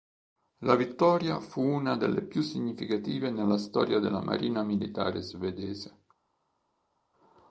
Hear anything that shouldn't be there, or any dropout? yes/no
no